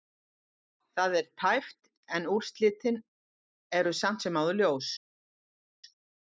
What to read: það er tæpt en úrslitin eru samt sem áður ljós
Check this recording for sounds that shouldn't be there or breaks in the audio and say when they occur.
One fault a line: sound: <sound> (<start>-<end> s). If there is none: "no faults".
no faults